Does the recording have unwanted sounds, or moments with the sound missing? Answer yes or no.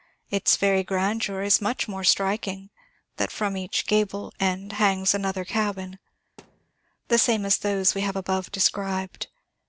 yes